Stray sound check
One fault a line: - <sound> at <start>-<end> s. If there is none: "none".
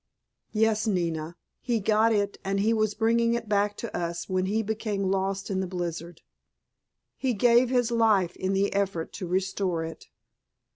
none